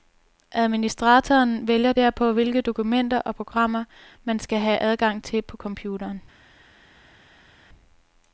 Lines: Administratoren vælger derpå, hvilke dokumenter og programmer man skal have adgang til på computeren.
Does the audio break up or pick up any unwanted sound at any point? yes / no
no